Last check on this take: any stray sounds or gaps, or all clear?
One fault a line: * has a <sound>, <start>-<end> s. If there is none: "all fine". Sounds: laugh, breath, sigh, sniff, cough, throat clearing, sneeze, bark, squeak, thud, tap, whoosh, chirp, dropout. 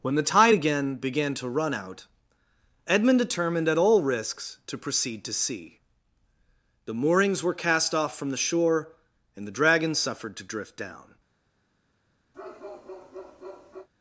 * has a bark, 12.3-13.9 s